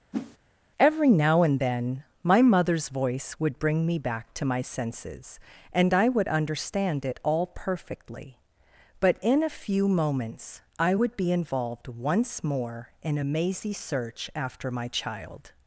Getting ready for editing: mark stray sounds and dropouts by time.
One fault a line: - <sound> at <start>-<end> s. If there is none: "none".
- whoosh at 0.1-0.4 s